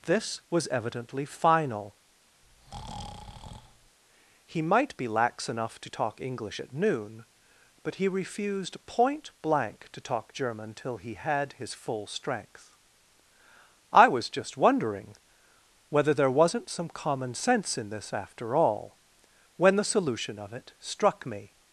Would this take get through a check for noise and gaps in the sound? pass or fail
fail